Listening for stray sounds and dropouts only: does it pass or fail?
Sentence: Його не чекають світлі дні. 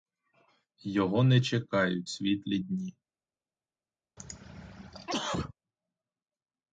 fail